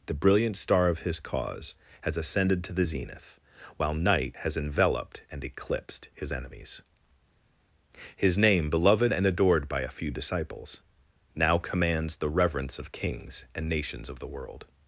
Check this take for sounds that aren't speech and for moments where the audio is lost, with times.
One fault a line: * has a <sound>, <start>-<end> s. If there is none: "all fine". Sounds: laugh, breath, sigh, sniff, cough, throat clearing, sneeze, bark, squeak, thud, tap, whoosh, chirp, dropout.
all fine